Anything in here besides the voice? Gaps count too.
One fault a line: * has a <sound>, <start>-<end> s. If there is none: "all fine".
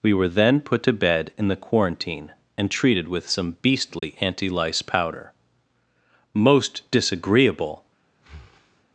* has a dropout, 4.0-4.0 s
* has a breath, 8.1-8.8 s